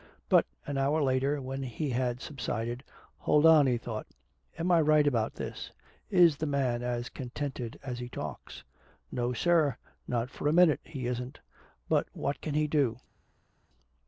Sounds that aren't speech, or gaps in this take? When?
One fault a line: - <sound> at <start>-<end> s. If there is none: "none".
none